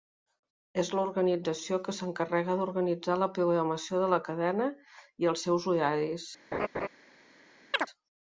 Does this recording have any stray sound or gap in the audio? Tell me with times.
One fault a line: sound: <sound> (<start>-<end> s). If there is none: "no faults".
sound: laugh (6.5-6.9 s)
sound: chirp (7.7-7.9 s)